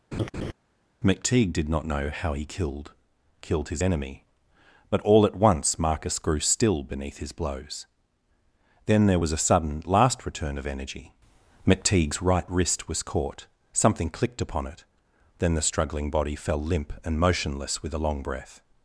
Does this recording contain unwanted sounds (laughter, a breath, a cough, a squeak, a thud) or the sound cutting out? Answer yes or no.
yes